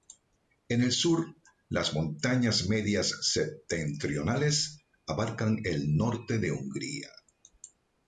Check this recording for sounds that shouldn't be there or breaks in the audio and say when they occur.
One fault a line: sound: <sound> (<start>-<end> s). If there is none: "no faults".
no faults